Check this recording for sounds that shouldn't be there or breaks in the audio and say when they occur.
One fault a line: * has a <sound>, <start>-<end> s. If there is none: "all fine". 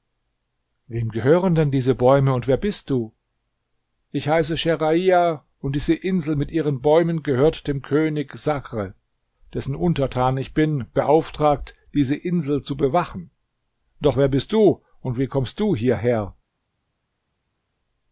all fine